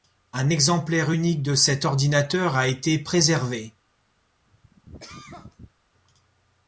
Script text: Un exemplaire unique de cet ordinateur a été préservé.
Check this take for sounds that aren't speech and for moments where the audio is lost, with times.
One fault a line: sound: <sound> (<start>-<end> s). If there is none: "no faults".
sound: cough (4.5-5.7 s)